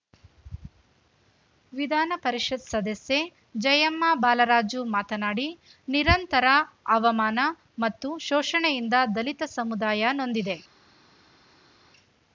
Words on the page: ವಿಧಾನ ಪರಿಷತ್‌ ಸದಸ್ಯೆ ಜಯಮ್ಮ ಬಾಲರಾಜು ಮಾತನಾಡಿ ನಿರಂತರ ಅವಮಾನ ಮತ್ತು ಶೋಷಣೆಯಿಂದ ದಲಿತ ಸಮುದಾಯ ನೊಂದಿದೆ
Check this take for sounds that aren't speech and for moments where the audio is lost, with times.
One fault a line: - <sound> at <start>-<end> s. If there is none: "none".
none